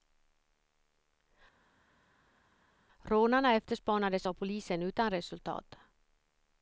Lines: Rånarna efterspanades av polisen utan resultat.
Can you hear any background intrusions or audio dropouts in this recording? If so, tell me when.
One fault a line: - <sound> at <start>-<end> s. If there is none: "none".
none